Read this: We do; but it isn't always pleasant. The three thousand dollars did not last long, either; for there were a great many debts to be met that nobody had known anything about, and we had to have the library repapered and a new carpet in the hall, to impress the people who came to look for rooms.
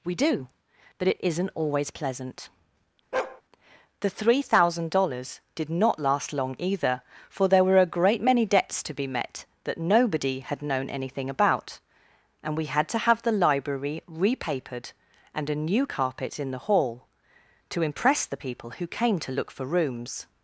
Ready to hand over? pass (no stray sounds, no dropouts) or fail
fail